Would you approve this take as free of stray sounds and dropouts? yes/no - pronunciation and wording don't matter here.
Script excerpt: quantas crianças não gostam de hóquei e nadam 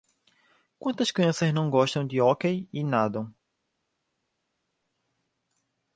yes